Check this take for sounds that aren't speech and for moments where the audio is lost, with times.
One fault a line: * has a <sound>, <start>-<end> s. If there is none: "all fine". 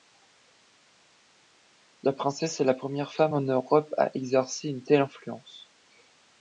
all fine